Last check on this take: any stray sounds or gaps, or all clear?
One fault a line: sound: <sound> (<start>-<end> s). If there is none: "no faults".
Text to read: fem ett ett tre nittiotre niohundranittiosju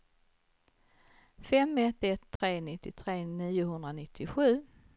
sound: dropout (2.4-2.4 s)